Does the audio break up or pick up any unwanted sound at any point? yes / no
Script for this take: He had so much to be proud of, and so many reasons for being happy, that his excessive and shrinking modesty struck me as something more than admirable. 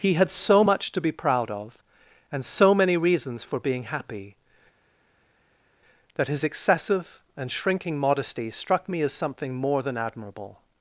no